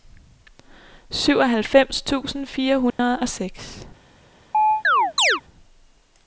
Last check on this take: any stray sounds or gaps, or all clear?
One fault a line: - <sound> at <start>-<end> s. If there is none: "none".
- dropout at 2.9-3.0 s
- chirp at 4.5-5.4 s